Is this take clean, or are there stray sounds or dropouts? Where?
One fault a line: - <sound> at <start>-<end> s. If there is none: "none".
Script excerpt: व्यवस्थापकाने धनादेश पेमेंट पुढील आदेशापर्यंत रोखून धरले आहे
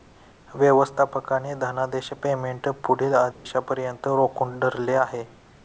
- dropout at 3.3-3.5 s